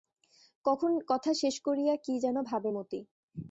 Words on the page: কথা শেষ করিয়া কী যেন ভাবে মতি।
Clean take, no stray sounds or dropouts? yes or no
yes